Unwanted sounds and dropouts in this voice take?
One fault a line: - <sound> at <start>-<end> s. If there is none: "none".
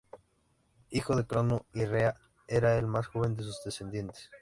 none